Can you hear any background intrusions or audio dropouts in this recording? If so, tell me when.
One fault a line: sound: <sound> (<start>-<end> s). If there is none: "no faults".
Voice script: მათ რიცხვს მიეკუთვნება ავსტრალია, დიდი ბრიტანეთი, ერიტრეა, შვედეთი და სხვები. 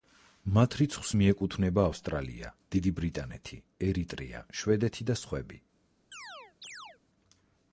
sound: chirp (6.1-7.0 s)